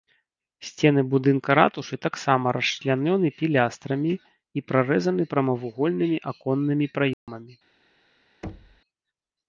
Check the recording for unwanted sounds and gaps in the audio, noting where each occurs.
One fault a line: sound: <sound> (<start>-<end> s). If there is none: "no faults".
sound: dropout (7.1-7.3 s)
sound: thud (8.4-8.8 s)